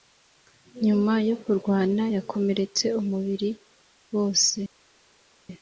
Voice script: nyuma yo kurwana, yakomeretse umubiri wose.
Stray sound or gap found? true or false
false